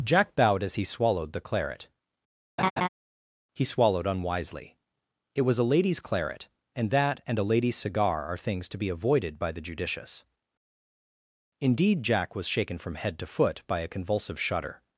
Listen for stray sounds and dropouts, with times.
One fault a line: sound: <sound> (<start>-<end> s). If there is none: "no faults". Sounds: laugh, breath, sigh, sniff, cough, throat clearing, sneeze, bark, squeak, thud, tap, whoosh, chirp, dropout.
sound: laugh (2.6-2.9 s)